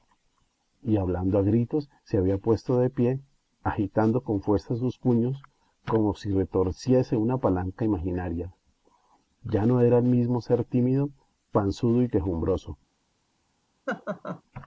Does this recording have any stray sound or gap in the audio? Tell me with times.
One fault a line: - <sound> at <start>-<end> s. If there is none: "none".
- laugh at 13.9-14.4 s